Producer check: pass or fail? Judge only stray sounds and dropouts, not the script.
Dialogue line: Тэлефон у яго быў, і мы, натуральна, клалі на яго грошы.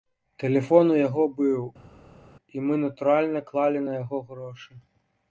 pass